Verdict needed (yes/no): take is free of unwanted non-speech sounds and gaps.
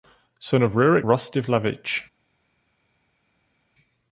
yes